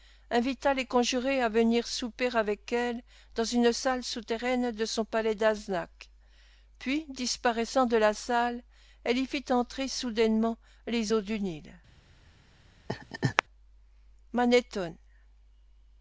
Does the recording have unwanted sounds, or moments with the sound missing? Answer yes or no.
yes